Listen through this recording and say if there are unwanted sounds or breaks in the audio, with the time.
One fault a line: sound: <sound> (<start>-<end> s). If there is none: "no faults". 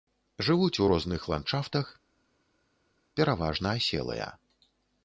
no faults